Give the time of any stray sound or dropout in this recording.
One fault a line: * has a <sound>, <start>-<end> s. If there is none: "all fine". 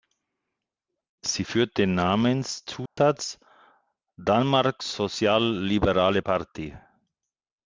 * has a dropout, 2.9-3.0 s